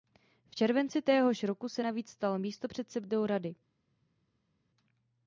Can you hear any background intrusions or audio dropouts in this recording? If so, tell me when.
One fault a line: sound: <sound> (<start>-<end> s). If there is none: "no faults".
no faults